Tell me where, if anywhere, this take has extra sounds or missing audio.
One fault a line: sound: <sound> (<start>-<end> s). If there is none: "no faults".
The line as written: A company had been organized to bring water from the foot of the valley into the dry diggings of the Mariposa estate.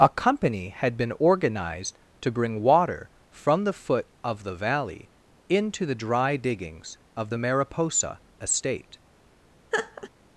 sound: laugh (9.7-10.1 s)